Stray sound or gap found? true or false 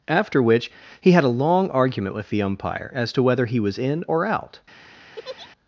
true